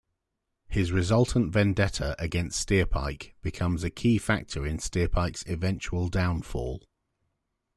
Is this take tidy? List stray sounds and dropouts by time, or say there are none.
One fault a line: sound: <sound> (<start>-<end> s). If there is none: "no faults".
no faults